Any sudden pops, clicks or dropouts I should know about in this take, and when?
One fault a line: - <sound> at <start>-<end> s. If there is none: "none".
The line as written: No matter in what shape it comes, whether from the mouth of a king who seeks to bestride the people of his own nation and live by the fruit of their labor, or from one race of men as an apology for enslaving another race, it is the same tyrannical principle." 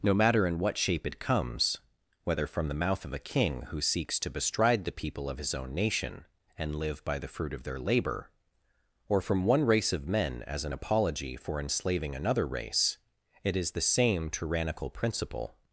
none